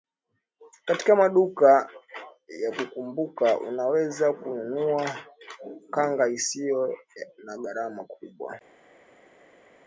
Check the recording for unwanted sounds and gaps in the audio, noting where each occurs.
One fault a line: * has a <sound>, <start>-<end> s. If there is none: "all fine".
all fine